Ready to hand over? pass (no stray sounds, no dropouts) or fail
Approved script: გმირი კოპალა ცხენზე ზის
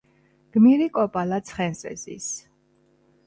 pass